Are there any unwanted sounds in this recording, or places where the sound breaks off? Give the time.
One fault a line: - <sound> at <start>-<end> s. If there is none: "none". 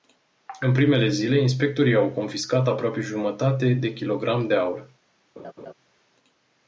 - laugh at 5.4-5.7 s